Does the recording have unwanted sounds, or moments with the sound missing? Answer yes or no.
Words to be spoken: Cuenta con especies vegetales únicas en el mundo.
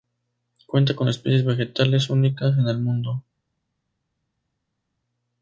no